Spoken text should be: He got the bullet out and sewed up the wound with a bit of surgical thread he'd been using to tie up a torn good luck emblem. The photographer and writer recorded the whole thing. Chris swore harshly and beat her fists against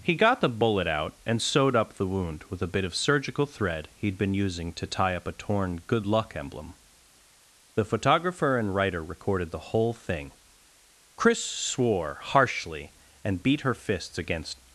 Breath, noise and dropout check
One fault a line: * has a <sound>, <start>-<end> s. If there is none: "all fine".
all fine